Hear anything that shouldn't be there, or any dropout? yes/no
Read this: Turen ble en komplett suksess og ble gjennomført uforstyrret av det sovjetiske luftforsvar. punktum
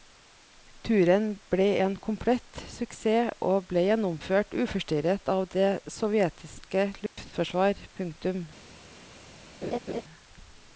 yes